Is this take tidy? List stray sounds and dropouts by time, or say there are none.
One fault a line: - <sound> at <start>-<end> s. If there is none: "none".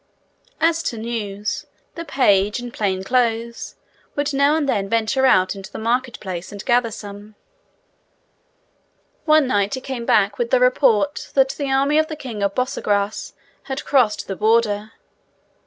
none